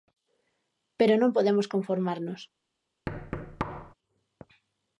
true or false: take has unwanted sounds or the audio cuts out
true